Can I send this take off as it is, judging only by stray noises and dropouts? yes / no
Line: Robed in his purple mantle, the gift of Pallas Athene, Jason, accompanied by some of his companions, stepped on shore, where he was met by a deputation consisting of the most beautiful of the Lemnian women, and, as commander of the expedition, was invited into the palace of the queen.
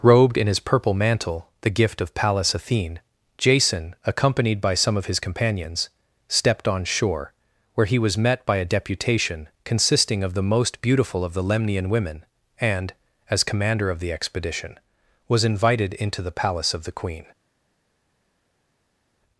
yes